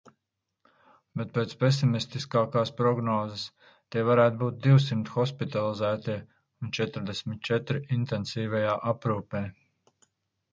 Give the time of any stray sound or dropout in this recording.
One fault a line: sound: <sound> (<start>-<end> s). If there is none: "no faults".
no faults